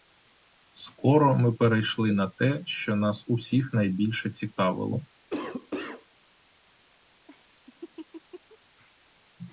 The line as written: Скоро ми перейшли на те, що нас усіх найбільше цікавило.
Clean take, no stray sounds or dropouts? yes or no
no